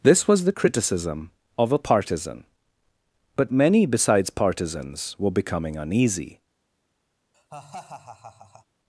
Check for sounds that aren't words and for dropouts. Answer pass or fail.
fail